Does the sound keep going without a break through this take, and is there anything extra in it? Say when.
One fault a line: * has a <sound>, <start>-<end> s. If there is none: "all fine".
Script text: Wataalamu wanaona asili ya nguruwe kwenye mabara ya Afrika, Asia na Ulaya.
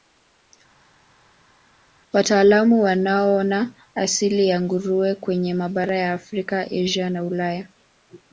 all fine